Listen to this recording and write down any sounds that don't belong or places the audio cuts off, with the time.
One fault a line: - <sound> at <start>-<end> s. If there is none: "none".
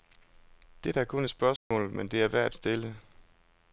- dropout at 1.6-1.7 s